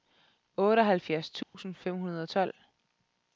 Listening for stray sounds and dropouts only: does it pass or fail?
fail